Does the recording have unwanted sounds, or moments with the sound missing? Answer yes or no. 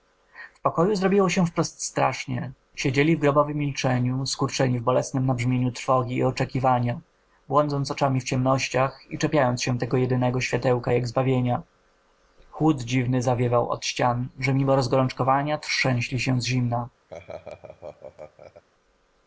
yes